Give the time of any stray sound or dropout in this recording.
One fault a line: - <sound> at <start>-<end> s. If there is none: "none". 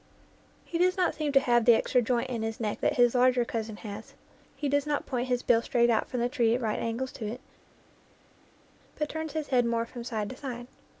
none